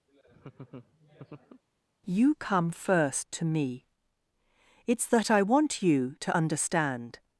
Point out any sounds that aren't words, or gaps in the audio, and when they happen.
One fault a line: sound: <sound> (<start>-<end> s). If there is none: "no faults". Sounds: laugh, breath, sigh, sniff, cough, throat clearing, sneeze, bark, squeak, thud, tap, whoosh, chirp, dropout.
sound: laugh (0.1-1.6 s)